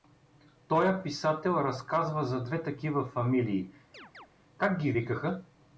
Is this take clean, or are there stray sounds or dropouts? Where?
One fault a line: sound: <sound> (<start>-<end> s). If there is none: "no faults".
sound: chirp (3.9-4.3 s)